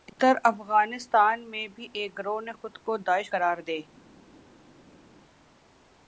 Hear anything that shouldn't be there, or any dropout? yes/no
no